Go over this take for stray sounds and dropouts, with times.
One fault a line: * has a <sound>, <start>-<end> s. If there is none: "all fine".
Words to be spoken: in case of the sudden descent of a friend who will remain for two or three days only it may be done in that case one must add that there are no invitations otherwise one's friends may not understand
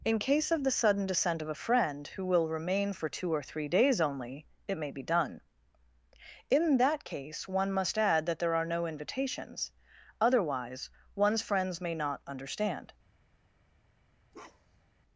* has a bark, 14.3-14.9 s